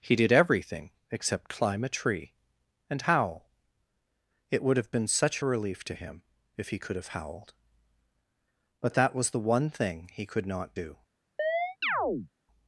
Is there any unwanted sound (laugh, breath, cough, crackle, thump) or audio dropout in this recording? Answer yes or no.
yes